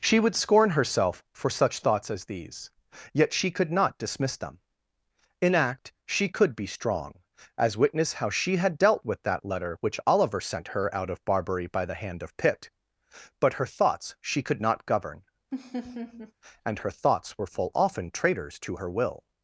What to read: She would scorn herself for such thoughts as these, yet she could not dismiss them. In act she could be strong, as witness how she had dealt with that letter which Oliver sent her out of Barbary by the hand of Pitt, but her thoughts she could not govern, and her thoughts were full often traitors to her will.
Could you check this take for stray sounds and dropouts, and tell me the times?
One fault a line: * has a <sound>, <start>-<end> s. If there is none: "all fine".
* has a laugh, 15.5-16.3 s